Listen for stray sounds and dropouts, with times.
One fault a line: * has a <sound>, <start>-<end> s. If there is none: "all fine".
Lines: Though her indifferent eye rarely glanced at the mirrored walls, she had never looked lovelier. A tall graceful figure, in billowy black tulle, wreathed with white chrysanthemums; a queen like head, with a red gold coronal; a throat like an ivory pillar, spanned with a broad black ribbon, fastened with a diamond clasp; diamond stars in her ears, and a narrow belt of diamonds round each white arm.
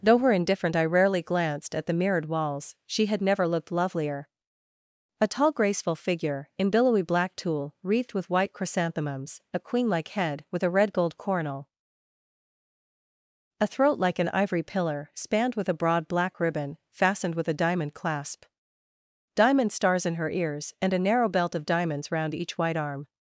all fine